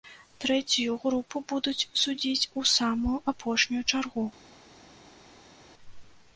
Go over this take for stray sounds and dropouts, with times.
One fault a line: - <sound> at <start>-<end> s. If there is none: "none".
none